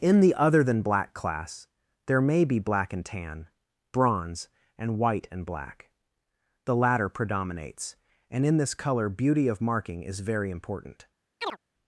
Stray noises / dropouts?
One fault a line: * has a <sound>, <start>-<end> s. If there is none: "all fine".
* has a chirp, 11.4-11.6 s